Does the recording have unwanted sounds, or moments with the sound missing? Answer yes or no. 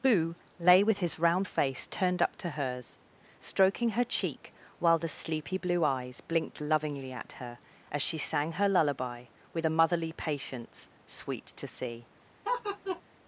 yes